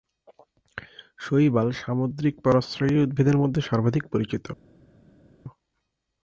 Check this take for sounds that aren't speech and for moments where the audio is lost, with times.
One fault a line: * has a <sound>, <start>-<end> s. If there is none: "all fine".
all fine